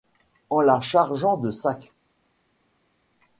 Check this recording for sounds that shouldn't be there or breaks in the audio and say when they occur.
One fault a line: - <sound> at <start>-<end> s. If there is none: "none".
none